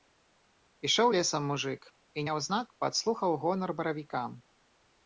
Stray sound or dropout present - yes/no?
no